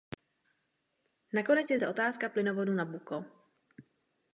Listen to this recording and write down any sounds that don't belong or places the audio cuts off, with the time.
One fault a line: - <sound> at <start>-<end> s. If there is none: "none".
none